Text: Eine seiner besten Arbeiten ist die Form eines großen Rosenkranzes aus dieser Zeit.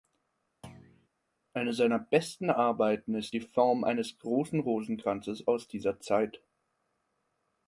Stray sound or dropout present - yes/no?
yes